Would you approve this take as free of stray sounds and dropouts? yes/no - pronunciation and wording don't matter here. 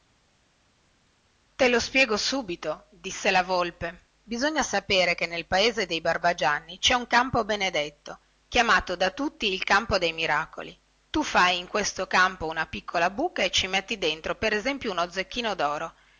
yes